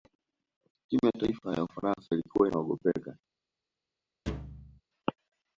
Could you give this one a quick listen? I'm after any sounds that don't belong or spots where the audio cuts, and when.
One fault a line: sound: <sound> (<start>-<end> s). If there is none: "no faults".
sound: thud (4.3-4.8 s)